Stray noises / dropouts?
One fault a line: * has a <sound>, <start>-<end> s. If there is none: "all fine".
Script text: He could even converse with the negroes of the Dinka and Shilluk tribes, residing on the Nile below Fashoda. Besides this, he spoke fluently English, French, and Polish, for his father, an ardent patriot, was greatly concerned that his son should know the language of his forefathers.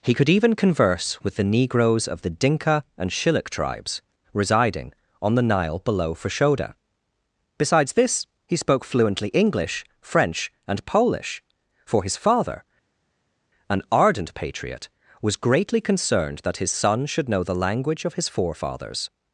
all fine